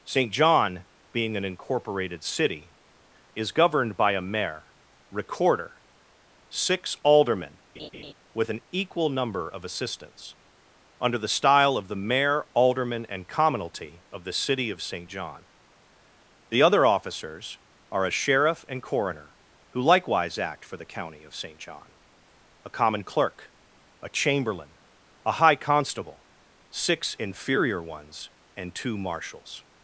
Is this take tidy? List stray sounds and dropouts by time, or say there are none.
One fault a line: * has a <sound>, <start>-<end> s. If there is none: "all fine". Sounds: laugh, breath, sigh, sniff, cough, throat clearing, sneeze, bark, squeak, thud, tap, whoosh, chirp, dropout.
* has a laugh, 7.8-8.1 s